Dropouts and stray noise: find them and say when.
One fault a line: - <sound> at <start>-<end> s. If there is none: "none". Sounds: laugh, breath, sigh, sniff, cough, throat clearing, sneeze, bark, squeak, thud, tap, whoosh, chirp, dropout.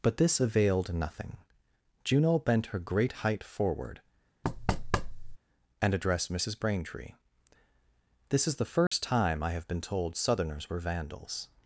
- thud at 4.4-5.4 s
- dropout at 8.9-8.9 s